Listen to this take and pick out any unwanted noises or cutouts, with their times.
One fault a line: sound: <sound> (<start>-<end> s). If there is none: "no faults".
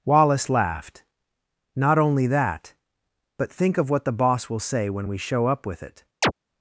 sound: chirp (6.2-6.3 s)